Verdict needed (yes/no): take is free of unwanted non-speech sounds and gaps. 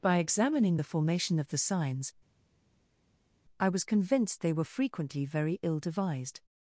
yes